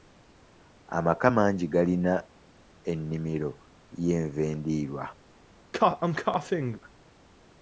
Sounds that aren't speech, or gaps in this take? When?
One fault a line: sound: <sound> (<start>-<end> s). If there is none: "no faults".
sound: cough (5.7-6.8 s)